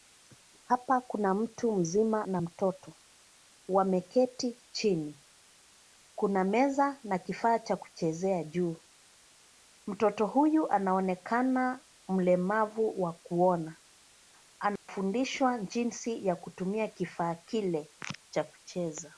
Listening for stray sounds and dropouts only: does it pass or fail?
fail